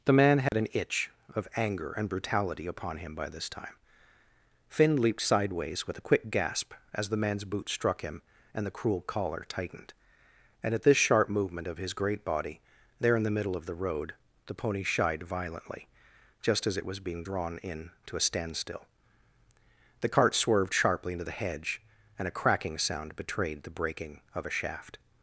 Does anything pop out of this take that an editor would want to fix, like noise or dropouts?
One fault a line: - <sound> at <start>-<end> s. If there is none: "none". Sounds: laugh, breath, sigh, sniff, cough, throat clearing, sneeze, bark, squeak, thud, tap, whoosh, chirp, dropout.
- dropout at 0.5-0.5 s